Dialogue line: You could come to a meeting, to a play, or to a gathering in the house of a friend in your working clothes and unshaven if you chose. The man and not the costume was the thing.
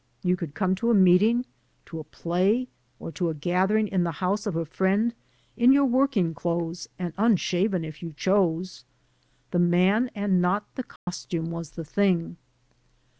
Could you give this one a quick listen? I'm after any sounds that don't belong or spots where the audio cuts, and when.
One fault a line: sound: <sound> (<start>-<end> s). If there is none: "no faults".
sound: dropout (11.0-11.1 s)